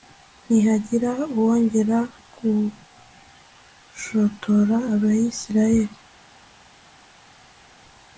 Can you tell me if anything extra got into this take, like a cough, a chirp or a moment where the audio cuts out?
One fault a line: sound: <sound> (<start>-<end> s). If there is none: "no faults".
no faults